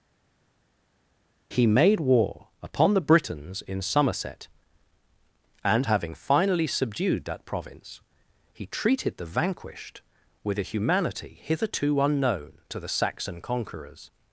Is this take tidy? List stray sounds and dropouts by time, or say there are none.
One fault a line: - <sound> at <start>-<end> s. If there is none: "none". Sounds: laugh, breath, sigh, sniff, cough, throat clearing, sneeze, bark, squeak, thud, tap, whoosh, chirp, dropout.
none